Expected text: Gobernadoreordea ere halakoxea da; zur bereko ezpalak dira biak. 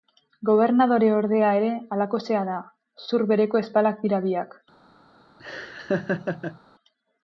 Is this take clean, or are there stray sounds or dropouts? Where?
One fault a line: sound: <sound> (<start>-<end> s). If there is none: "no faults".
sound: laugh (5.4-6.6 s)